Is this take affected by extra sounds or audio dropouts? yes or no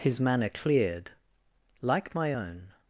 no